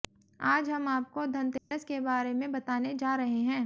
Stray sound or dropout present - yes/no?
yes